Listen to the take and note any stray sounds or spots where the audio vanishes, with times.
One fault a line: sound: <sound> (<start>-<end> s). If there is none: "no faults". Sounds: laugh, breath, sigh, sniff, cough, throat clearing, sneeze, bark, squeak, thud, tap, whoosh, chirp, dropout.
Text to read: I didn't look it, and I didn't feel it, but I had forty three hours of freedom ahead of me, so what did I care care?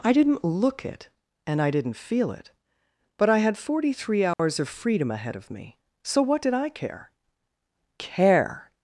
sound: dropout (4.3-4.4 s)